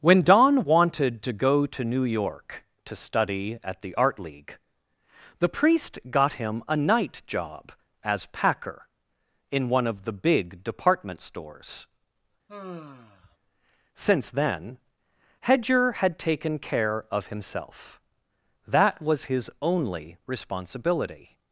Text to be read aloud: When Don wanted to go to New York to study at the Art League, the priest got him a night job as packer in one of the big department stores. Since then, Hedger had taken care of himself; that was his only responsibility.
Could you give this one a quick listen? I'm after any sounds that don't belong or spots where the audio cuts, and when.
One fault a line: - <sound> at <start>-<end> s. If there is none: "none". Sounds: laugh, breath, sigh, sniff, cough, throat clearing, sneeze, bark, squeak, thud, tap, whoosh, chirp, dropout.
- sigh at 12.5-13.4 s